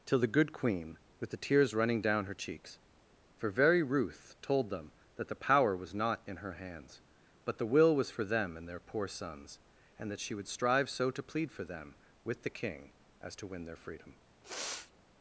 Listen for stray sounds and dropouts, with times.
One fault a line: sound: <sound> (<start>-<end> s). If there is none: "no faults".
sound: sniff (14.4-14.9 s)